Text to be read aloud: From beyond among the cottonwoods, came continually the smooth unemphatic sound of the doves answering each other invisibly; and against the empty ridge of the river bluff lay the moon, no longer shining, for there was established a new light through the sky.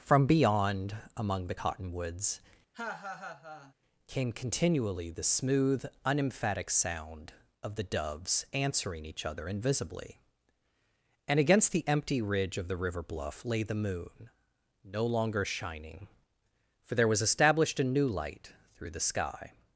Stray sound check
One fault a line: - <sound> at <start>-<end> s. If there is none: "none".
- laugh at 2.7-3.7 s